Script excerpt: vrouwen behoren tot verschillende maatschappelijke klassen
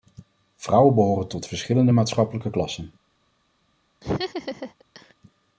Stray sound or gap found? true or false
true